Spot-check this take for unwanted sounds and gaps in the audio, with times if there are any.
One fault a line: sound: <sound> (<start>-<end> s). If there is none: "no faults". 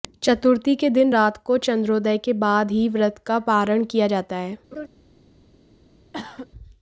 sound: laugh (4.7-4.9 s)
sound: cough (6.1-6.5 s)